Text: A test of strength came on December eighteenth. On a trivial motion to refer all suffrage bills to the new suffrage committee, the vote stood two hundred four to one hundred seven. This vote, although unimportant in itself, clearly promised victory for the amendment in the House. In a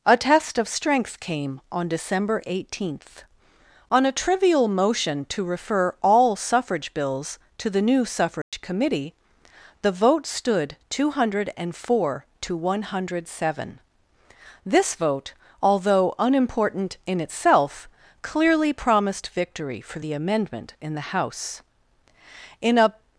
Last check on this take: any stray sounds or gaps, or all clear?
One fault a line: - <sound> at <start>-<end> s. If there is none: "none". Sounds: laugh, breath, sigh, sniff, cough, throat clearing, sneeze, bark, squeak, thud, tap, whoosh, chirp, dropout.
- dropout at 8.4-8.5 s